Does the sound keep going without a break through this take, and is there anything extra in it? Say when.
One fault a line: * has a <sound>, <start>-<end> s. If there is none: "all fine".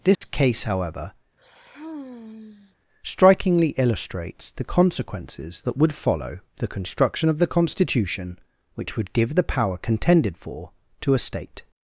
* has a dropout, 0.1-0.2 s
* has a sigh, 1.4-2.8 s